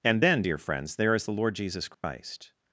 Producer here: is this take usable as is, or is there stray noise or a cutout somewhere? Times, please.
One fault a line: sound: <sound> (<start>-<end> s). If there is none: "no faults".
sound: dropout (1.9-2.0 s)